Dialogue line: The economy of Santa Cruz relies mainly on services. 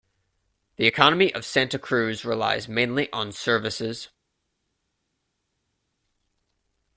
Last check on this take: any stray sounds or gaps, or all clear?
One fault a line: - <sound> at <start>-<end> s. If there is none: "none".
none